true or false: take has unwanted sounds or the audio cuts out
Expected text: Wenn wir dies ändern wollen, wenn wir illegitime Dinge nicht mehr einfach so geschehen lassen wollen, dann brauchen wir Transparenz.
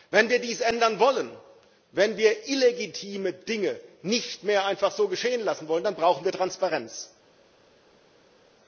false